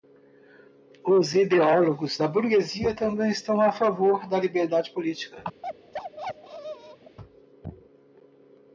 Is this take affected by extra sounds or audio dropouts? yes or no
yes